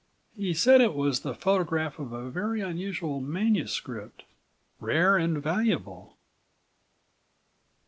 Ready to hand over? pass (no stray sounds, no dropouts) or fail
pass